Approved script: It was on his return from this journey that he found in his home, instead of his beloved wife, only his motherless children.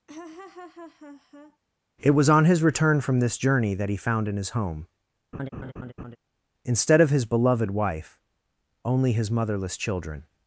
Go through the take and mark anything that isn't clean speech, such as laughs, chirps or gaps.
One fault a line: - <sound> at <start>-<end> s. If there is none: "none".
- laugh at 0.1-1.6 s
- laugh at 5.3-6.2 s